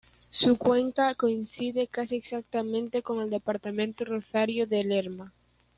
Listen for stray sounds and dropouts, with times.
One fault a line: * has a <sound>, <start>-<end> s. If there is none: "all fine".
all fine